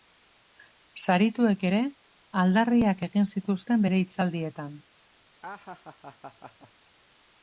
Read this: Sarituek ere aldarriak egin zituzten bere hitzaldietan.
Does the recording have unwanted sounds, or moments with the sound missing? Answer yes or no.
yes